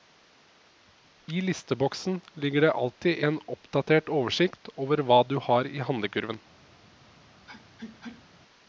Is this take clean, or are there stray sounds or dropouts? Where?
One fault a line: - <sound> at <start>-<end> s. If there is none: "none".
- sneeze at 7.5-8.3 s